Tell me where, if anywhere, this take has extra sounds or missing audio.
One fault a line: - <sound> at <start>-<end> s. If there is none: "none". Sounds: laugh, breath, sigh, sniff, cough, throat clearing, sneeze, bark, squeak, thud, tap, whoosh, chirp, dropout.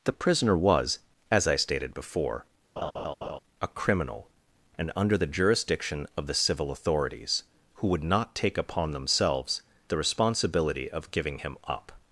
- laugh at 2.8-3.4 s